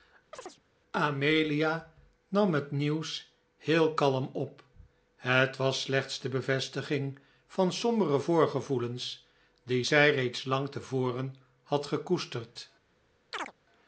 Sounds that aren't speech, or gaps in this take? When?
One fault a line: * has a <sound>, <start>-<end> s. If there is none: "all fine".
* has a chirp, 0.3-0.6 s
* has a chirp, 13.3-13.5 s